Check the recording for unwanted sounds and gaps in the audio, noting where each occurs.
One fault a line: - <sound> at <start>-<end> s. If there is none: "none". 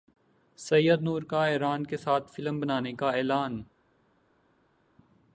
none